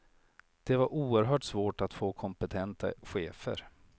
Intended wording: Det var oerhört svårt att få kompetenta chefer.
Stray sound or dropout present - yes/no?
no